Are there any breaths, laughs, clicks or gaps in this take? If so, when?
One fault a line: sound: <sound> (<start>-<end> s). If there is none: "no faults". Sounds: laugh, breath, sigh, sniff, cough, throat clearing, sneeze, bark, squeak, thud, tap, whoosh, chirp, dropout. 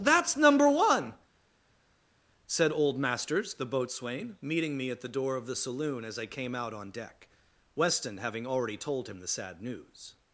no faults